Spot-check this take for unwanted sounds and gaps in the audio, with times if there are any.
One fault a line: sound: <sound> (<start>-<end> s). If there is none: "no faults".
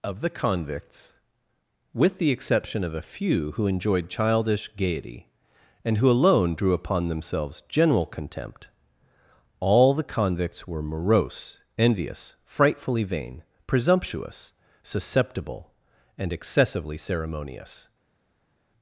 no faults